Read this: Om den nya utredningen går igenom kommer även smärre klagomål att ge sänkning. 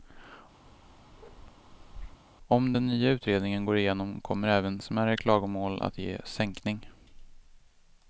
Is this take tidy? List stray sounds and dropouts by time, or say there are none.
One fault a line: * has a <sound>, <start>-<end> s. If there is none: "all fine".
* has a bark, 0.7-2.2 s